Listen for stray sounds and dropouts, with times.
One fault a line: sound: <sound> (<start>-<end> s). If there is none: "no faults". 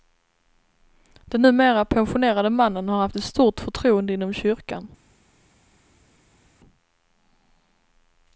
no faults